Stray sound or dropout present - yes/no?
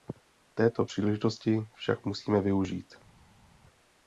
no